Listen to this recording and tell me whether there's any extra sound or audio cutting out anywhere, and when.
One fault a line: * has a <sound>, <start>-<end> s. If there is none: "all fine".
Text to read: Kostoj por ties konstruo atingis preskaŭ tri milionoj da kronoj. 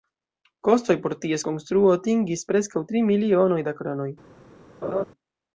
* has a laugh, 4.8-5.0 s